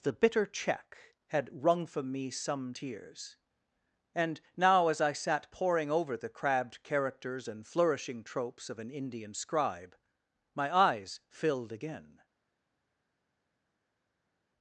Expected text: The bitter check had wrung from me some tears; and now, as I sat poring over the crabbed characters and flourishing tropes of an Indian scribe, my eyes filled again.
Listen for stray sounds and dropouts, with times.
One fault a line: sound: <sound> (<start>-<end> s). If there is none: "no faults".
no faults